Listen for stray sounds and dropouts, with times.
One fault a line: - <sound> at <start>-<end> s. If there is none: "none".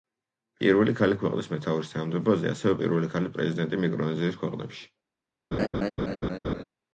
- laugh at 5.5-6.6 s